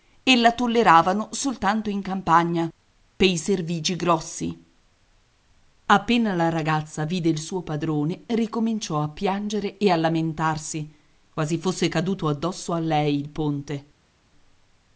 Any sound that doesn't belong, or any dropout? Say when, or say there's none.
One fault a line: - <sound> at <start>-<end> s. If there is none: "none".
none